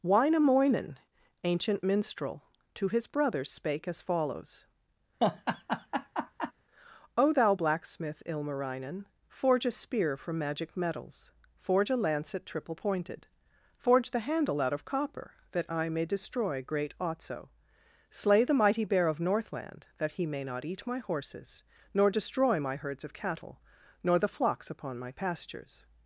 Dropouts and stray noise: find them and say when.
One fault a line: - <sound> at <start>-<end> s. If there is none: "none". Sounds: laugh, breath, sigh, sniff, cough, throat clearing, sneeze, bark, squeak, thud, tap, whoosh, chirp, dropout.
- laugh at 5.2-6.5 s